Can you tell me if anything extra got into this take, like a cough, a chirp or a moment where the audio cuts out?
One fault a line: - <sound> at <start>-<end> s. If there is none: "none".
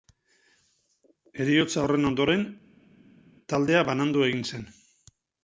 none